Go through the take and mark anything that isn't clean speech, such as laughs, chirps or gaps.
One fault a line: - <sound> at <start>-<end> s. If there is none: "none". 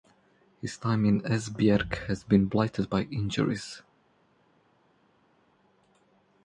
none